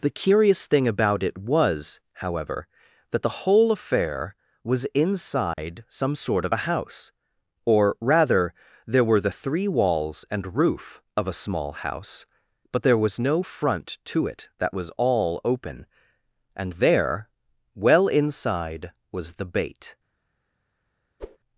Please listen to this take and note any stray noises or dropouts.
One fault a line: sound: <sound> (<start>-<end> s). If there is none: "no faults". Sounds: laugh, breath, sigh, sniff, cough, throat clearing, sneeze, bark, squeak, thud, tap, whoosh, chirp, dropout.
sound: dropout (5.5-5.6 s)
sound: whoosh (21.2-21.4 s)